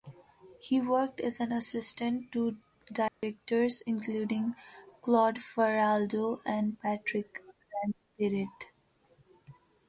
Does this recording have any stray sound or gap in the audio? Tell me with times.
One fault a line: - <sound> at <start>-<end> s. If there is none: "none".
- dropout at 3.1-3.2 s